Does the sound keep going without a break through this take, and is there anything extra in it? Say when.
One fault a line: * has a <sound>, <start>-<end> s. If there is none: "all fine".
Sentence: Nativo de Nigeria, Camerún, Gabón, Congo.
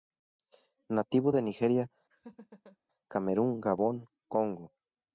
* has a laugh, 2.1-2.8 s